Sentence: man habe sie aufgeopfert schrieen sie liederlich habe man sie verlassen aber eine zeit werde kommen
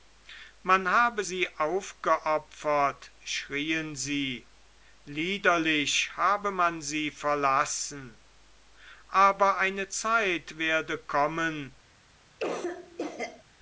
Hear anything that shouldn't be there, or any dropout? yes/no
yes